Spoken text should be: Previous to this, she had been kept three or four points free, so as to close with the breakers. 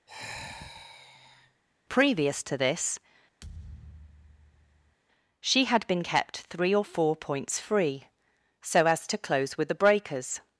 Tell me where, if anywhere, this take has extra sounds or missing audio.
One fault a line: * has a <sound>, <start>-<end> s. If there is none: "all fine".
* has a sigh, 0.1-1.6 s
* has a thud, 3.4-5.0 s